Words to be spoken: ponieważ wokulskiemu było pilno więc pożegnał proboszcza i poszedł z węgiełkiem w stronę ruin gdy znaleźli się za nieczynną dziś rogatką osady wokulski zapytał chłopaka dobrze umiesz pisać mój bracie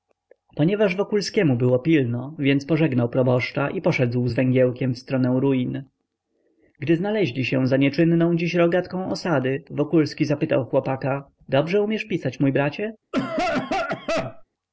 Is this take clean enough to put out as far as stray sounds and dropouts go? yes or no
no